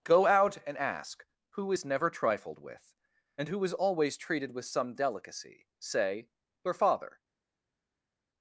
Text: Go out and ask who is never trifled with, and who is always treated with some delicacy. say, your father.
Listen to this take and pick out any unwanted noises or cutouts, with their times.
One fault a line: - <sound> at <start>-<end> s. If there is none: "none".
none